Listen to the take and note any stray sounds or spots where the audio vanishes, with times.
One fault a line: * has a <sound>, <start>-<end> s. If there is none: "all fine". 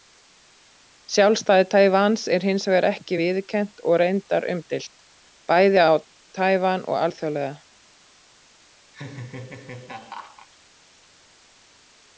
* has a laugh, 8.9-10.5 s